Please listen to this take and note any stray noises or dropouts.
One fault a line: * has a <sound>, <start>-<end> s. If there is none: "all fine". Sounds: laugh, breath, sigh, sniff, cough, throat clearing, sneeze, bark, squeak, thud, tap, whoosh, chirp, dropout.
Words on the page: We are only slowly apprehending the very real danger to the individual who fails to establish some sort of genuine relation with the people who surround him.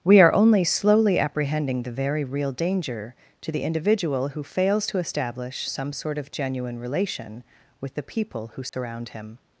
* has a dropout, 8.7-8.7 s